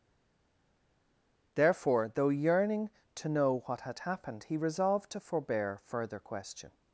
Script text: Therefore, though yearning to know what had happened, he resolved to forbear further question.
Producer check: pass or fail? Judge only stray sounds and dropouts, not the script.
pass